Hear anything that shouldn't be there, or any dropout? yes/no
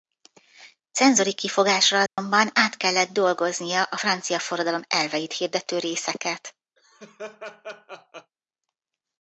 yes